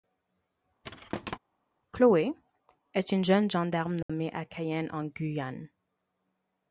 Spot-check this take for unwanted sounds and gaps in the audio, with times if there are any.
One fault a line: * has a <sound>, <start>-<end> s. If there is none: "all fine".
* has a thud, 0.8-1.4 s
* has a dropout, 4.0-4.1 s